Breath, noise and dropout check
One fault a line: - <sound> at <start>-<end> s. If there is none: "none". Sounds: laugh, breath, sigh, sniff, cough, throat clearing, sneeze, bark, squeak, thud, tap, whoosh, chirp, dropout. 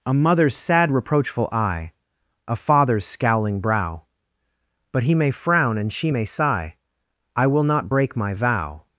none